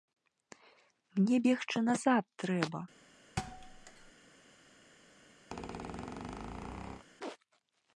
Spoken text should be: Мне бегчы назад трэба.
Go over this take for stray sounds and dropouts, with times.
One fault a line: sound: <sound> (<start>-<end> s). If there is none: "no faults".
sound: thud (3.4-4.1 s)
sound: squeak (5.5-7.1 s)